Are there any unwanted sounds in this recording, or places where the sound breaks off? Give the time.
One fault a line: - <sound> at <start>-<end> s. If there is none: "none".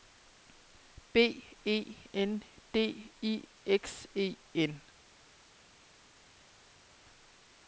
none